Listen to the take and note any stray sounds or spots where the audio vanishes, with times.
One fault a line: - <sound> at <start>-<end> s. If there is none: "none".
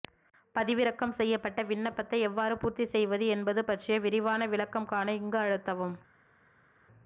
none